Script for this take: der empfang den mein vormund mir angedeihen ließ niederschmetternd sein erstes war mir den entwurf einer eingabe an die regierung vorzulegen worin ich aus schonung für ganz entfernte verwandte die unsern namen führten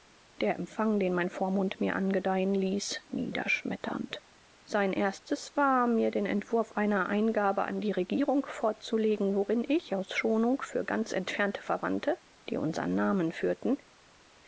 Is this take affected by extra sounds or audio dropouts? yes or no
no